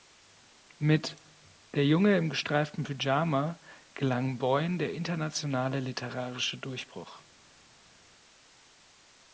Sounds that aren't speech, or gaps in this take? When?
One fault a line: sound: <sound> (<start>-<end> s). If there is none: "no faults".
no faults